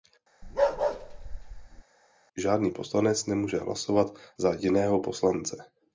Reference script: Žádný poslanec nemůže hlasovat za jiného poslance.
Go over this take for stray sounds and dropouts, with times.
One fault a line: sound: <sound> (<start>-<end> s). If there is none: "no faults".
sound: bark (0.4-1.8 s)